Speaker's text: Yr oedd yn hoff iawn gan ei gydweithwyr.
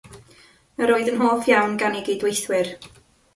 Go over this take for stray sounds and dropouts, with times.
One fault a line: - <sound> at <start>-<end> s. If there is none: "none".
none